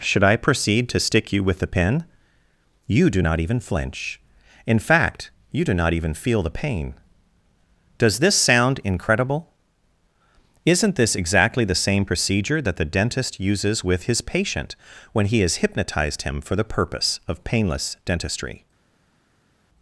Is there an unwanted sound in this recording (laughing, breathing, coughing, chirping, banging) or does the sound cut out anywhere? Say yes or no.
no